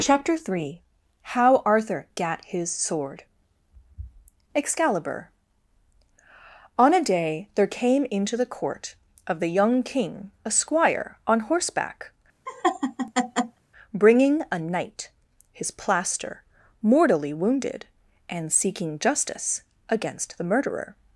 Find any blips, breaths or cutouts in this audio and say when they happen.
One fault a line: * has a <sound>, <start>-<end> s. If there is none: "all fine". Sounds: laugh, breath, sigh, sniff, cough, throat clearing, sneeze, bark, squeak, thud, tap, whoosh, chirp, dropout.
* has a laugh, 12.5-13.6 s